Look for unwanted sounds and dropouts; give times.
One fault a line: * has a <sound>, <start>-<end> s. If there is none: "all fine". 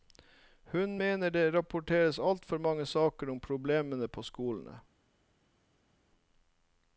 all fine